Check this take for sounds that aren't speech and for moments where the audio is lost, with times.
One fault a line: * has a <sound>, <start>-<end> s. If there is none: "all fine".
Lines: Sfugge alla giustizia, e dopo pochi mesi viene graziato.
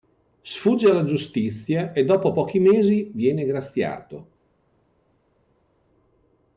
all fine